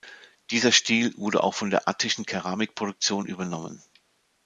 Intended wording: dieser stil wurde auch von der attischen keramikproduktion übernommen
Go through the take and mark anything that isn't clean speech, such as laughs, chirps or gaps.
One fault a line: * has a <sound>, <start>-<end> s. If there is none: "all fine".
all fine